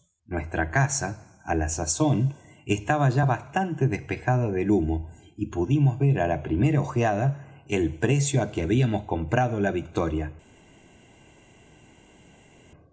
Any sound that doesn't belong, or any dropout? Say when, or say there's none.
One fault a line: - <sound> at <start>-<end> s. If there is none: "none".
none